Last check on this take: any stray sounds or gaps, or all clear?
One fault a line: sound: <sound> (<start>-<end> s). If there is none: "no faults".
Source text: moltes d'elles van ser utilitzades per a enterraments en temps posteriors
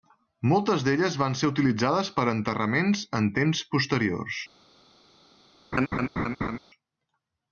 sound: laugh (5.7-6.6 s)